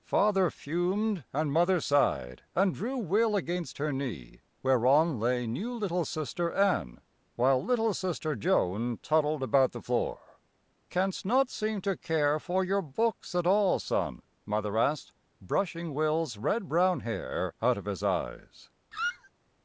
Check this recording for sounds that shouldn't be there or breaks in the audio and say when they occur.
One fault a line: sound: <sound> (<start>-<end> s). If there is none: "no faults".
sound: squeak (18.9-19.3 s)